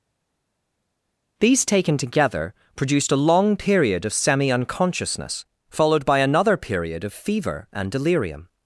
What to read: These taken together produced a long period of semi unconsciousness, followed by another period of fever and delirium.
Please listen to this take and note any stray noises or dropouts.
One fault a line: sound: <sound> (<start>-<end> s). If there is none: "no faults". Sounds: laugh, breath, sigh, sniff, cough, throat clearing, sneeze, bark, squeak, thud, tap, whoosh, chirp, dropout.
no faults